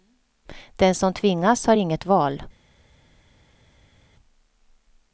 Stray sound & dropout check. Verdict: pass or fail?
pass